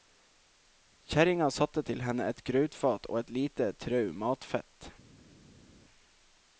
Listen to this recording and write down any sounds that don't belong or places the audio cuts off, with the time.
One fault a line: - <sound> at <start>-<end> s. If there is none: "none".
none